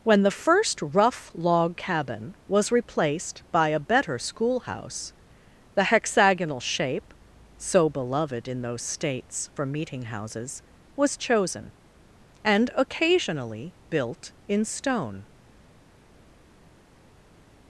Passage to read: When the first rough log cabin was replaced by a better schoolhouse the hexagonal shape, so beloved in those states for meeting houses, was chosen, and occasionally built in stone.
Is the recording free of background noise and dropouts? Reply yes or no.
yes